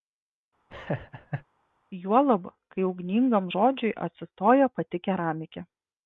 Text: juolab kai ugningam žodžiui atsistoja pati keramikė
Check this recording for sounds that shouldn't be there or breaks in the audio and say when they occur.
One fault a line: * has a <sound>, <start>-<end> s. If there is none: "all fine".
* has a laugh, 0.7-1.4 s